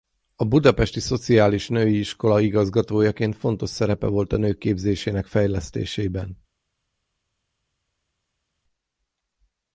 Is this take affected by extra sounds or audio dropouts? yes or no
no